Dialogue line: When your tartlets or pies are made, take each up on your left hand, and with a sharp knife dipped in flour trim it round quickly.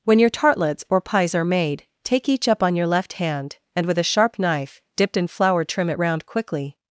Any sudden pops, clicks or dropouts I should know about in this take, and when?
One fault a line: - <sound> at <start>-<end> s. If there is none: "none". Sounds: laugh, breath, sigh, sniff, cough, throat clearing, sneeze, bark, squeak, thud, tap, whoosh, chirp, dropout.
none